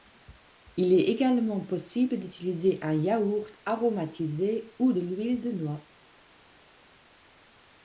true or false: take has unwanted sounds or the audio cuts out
false